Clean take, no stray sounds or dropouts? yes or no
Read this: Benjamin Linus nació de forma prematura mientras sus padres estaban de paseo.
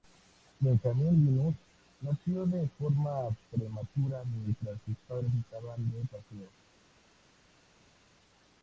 yes